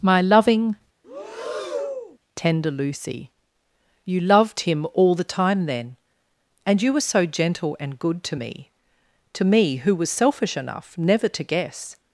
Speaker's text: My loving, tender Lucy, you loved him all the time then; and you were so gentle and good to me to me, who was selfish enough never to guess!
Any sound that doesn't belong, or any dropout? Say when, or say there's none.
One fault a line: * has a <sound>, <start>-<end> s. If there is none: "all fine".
* has a breath, 1.0-2.2 s